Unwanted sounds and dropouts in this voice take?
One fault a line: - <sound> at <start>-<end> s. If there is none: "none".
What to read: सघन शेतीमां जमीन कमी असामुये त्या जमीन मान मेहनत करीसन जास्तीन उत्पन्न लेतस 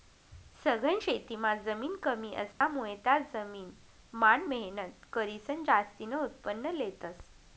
- dropout at 2.5-2.6 s